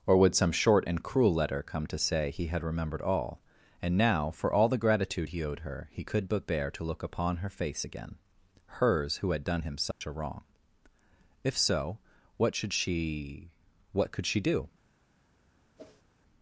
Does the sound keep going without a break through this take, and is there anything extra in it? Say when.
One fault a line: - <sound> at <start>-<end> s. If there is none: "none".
- dropout at 9.9-10.0 s
- whoosh at 15.8-16.0 s